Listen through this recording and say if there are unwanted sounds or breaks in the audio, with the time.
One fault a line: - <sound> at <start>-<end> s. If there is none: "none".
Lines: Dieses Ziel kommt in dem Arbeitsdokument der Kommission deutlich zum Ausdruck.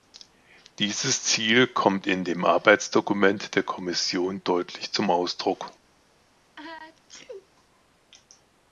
- sneeze at 6.6-7.5 s